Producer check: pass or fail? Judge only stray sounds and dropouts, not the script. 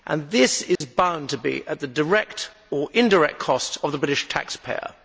fail